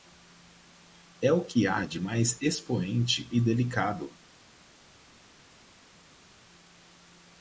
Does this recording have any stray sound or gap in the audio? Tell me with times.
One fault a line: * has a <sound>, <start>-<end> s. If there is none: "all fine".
all fine